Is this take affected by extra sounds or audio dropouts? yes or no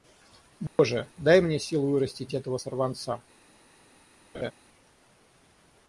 yes